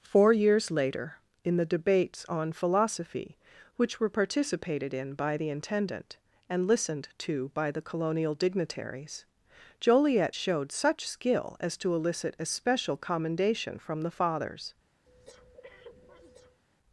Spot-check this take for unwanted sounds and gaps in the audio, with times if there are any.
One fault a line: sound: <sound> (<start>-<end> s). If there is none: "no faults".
sound: breath (15.0-16.6 s)